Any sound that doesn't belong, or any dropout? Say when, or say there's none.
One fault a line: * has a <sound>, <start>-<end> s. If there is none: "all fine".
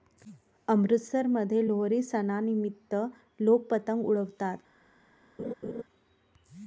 * has a laugh, 5.4-5.8 s